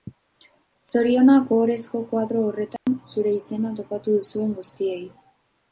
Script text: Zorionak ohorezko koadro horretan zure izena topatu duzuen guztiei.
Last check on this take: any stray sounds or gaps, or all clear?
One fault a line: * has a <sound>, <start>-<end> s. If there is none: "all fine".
* has a dropout, 2.8-2.9 s